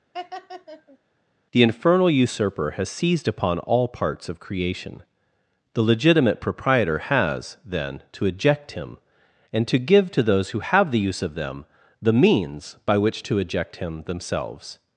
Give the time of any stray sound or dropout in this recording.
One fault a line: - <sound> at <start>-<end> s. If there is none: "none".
- laugh at 0.1-1.0 s